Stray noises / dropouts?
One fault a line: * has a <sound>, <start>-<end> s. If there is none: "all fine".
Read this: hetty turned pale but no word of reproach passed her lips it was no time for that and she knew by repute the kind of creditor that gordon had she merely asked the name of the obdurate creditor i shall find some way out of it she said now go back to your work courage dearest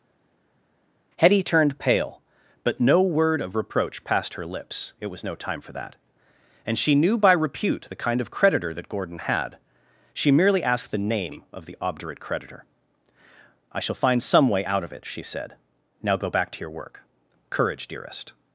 all fine